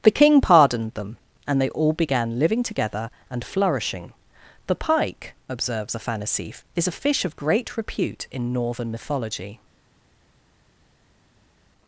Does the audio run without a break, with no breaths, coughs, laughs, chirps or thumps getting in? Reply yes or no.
yes